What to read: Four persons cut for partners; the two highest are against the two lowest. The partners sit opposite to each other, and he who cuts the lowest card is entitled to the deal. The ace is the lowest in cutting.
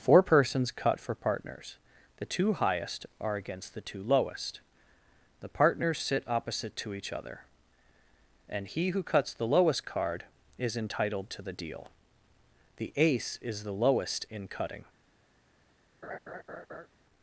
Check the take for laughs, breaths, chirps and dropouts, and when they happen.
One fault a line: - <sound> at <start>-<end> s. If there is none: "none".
- laugh at 16.0-16.9 s